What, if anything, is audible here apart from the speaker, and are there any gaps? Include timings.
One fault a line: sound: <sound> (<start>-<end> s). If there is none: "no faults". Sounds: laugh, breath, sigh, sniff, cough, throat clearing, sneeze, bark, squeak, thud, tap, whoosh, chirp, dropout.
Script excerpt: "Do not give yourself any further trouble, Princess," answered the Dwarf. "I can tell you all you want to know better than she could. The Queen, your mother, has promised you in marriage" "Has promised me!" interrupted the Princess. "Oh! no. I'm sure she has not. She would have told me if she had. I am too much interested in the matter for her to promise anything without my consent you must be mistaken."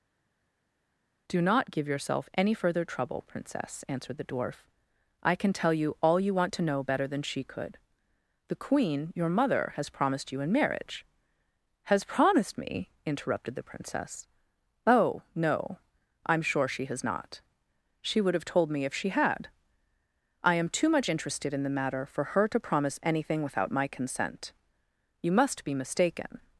no faults